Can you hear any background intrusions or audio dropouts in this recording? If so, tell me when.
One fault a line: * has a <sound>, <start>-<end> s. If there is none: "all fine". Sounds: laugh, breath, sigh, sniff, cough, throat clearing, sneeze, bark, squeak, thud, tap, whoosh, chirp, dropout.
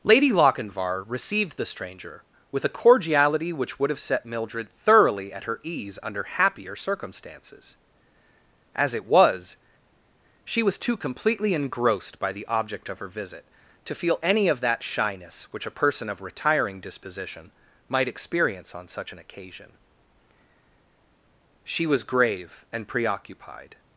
all fine